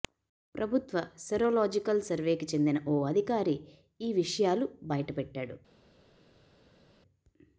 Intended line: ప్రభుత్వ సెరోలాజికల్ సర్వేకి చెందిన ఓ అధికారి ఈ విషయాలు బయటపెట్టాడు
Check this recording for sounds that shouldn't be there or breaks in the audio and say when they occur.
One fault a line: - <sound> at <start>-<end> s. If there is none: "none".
none